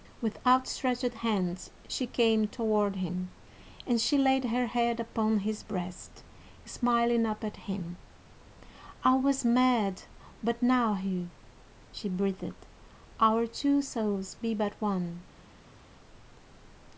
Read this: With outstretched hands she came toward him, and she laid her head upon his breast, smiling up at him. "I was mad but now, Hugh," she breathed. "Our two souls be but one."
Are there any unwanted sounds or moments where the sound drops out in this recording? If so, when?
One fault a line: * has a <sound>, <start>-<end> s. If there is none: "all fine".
all fine